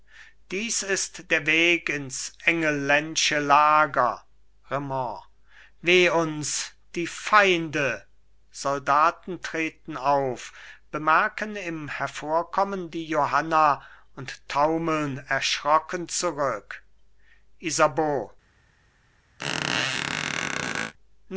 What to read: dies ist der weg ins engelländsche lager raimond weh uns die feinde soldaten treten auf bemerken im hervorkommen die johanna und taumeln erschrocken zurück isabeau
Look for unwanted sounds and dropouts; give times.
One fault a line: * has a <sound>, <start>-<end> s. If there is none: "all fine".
* has a squeak, 19.4-20.9 s